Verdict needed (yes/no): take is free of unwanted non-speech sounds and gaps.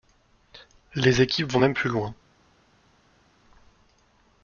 yes